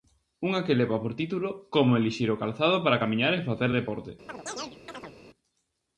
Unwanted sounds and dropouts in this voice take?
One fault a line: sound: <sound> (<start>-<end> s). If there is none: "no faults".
sound: chirp (4.3-5.1 s)